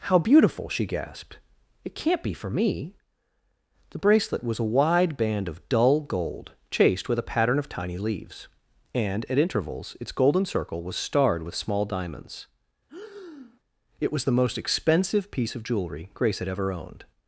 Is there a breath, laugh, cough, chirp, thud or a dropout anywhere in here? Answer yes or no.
yes